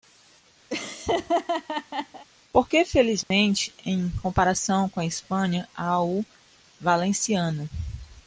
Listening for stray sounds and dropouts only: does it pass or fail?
fail